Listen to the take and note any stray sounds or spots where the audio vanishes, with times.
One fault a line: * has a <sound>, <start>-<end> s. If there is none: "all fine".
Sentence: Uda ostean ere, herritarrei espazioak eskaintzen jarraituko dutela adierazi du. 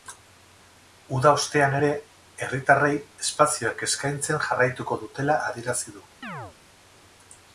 * has a chirp, 6.2-6.6 s